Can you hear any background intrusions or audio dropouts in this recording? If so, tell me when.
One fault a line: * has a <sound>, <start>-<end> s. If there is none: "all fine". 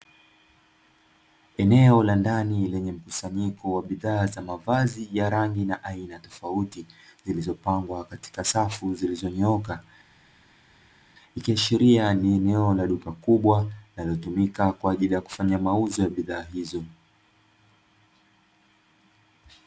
all fine